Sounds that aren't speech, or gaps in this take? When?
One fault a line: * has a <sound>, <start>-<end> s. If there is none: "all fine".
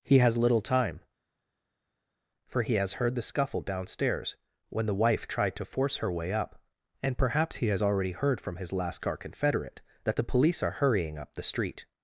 all fine